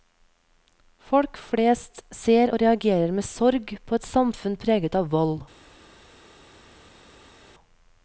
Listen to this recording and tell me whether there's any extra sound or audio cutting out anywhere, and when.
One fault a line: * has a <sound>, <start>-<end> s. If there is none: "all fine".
all fine